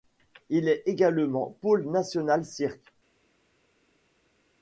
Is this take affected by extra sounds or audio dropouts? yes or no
no